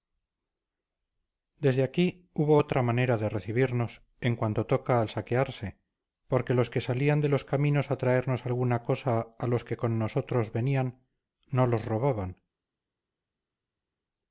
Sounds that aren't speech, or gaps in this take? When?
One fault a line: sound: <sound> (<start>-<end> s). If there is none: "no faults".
no faults